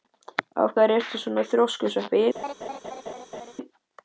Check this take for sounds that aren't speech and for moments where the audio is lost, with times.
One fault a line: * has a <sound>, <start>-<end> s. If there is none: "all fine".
* has a laugh, 2.3-3.5 s